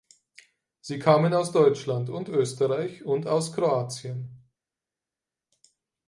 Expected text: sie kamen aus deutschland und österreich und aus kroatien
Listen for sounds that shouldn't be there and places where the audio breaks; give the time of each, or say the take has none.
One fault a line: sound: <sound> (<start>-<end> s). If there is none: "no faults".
no faults